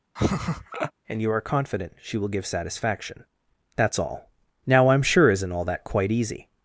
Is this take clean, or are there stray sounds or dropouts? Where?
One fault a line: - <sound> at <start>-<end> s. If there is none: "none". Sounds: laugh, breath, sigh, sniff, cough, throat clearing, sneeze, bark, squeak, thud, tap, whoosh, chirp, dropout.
- laugh at 0.2-0.9 s